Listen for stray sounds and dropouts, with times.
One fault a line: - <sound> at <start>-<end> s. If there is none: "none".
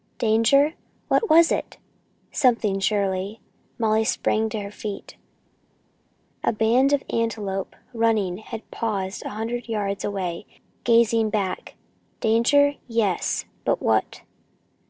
none